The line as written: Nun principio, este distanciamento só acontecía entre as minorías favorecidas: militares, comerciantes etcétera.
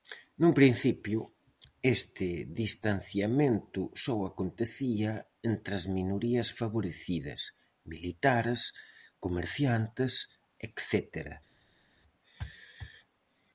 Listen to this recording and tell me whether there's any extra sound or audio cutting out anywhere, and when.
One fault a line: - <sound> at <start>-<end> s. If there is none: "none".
none